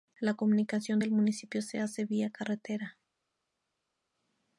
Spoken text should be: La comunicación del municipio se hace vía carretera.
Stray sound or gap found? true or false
false